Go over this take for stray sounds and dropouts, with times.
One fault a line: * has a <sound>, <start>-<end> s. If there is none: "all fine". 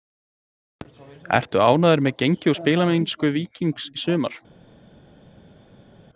all fine